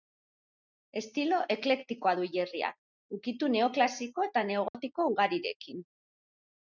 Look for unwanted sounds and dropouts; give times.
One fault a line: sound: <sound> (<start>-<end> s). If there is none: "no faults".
sound: dropout (4.7-4.7 s)